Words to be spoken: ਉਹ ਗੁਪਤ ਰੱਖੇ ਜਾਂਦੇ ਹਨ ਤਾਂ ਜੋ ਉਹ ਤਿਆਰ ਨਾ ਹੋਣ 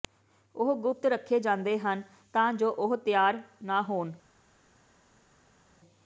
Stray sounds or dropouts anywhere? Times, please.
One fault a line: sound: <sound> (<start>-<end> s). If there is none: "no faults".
no faults